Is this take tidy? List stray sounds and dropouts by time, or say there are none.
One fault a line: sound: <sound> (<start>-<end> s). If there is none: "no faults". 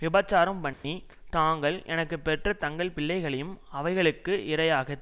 sound: dropout (0.7-0.8 s)